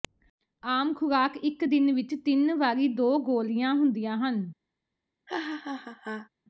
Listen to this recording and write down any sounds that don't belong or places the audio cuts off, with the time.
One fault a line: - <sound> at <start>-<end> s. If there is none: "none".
- laugh at 5.3-6.3 s